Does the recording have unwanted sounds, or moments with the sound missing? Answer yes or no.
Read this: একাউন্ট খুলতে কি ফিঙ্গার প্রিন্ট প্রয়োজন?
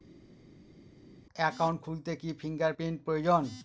no